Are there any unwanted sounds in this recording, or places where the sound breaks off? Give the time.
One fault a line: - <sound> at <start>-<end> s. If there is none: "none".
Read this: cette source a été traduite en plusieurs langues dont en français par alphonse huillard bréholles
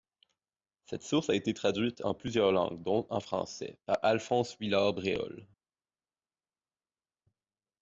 none